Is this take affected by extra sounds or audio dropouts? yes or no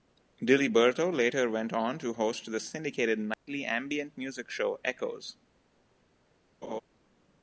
yes